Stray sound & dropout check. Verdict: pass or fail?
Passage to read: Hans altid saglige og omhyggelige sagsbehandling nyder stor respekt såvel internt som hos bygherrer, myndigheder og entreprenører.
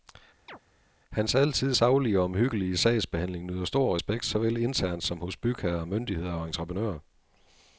fail